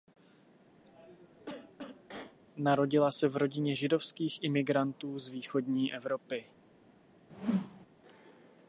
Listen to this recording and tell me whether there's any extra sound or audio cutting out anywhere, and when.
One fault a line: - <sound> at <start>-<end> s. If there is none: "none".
- cough at 0.8-2.4 s
- whoosh at 7.3-7.9 s